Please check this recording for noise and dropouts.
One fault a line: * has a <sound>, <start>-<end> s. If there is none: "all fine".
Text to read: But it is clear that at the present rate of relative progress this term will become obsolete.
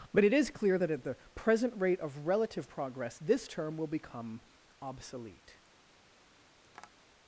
* has a tap, 6.6-6.9 s